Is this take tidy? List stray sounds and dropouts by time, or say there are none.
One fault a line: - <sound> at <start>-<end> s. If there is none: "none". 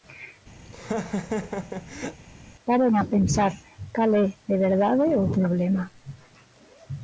- laugh at 0.6-2.2 s